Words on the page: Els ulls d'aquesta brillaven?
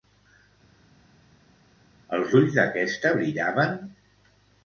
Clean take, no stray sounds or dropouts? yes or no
yes